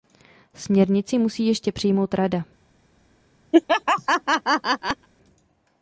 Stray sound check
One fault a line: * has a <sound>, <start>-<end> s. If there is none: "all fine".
* has a laugh, 3.5-5.1 s